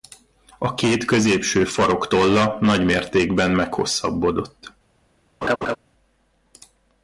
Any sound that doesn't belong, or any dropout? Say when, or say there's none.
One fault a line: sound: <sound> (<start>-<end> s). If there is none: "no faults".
sound: laugh (5.4-5.8 s)